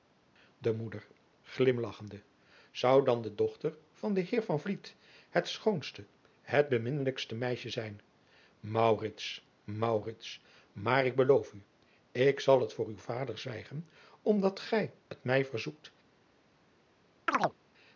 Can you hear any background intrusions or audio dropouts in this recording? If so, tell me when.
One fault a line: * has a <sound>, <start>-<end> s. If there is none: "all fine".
* has a chirp, 17.3-17.6 s